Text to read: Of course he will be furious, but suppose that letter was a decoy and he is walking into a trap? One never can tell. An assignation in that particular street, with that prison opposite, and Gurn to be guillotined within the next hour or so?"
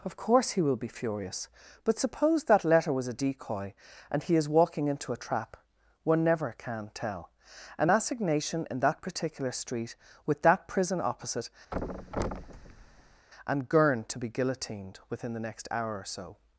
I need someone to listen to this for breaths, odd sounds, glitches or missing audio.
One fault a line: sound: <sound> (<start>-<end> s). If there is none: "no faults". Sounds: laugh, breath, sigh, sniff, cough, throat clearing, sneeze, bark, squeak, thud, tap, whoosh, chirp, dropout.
sound: thud (11.7-13.3 s)